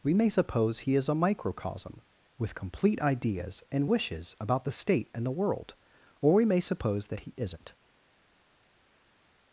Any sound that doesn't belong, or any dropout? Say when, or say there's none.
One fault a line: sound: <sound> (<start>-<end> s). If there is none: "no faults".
no faults